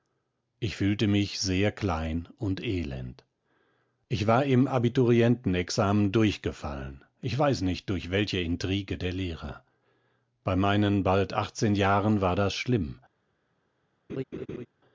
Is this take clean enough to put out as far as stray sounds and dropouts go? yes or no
no